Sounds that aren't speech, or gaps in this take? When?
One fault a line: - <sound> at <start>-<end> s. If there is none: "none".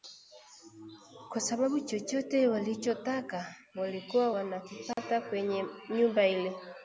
- dropout at 4.9-5.0 s